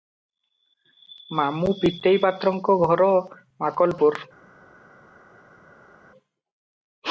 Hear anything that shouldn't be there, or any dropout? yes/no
no